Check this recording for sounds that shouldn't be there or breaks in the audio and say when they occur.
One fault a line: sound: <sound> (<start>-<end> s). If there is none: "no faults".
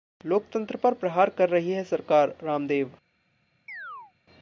sound: chirp (3.7-4.1 s)